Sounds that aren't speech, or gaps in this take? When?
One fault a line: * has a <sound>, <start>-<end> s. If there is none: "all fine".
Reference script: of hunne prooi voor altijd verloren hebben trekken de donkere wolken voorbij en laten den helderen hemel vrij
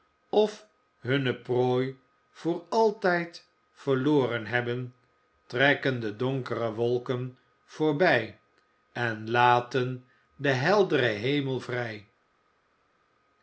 all fine